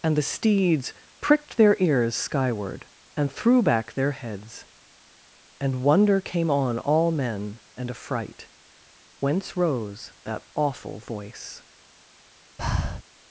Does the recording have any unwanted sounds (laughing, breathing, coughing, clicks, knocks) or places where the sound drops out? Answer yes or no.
yes